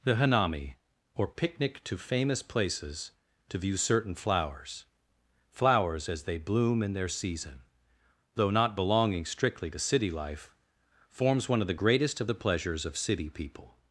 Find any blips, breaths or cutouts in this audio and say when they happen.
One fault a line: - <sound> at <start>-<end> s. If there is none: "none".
none